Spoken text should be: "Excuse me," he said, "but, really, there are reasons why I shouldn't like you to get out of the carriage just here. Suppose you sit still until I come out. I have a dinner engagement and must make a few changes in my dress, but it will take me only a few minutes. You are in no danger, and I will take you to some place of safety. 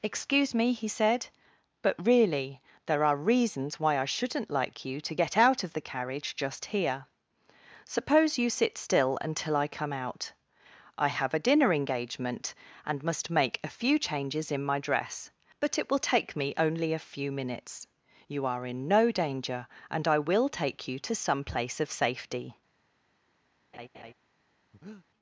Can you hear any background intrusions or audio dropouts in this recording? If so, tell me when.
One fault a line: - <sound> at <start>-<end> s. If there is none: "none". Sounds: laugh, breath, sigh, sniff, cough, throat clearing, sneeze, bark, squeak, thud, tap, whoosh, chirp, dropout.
- laugh at 23.7-24.1 s
- breath at 24.7-25.1 s